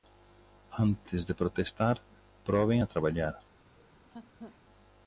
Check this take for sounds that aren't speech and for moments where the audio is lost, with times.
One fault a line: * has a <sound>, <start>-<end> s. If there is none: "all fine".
* has a laugh, 3.7-4.6 s